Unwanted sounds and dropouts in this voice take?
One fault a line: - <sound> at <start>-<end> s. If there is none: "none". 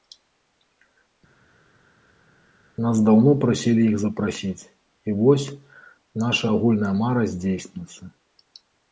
none